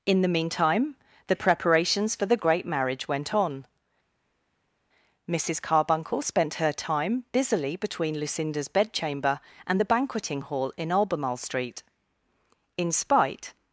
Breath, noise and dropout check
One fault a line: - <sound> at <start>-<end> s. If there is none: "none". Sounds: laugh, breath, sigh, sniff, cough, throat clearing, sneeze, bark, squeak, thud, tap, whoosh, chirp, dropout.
none